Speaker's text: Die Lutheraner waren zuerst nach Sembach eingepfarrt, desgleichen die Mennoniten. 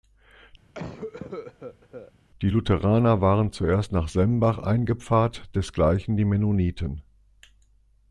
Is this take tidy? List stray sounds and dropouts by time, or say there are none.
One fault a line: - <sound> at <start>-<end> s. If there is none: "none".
- cough at 0.7-2.1 s